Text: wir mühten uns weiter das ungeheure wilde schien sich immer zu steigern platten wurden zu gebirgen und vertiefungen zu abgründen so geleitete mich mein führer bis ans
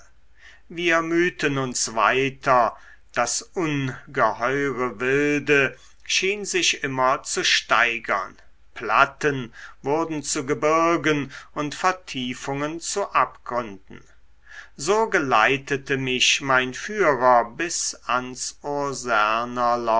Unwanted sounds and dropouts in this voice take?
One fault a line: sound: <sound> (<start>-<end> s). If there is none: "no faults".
no faults